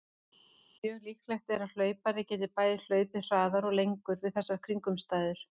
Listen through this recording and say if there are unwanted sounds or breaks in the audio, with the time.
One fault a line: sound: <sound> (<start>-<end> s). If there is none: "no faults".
no faults